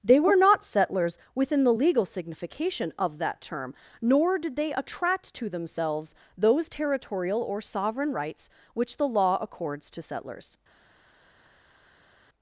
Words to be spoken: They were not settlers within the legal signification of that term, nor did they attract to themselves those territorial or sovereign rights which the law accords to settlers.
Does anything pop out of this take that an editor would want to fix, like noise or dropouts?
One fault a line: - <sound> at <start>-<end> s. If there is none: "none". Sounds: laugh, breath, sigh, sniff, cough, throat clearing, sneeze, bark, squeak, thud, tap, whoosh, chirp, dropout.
none